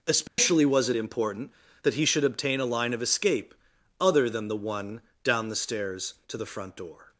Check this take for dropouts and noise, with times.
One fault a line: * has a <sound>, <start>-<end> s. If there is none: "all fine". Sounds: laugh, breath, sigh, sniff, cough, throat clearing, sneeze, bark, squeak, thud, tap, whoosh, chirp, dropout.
* has a dropout, 0.3-0.4 s